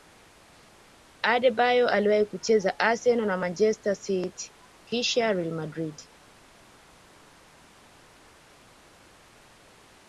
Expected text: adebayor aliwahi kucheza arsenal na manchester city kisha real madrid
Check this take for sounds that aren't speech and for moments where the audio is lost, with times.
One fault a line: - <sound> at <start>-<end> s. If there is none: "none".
none